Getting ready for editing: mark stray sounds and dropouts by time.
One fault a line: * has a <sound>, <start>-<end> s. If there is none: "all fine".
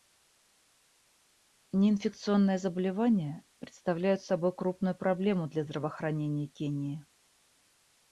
all fine